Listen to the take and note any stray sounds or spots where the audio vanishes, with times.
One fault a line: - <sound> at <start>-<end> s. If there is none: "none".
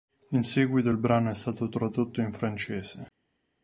none